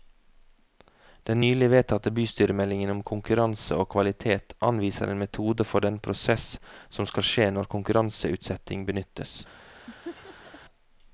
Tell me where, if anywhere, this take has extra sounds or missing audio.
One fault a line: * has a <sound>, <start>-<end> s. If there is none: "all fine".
* has a laugh, 9.9-10.6 s